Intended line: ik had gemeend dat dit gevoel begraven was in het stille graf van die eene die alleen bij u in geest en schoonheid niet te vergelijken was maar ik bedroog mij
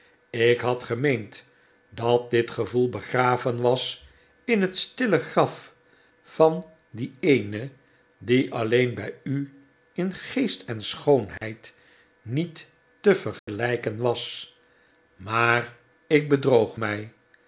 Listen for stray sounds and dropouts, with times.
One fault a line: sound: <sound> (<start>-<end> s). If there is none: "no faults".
sound: dropout (11.4-11.4 s)
sound: dropout (13.4-13.5 s)